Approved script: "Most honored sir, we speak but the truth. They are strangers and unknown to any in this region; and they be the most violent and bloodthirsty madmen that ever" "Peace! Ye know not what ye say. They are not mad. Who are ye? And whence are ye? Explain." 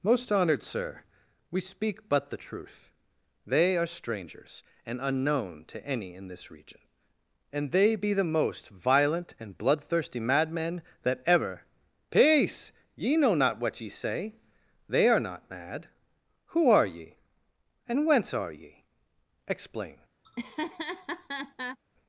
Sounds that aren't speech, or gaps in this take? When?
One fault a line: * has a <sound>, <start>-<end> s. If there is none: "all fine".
* has a laugh, 20.2-21.8 s